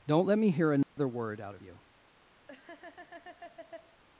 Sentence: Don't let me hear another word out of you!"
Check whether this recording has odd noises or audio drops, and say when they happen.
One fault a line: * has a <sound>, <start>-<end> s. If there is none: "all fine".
* has a dropout, 0.8-1.0 s
* has a laugh, 2.5-4.0 s